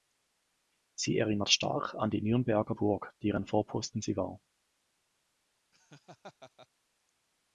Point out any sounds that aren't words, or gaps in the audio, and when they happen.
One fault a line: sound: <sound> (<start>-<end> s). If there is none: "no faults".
sound: laugh (5.7-6.7 s)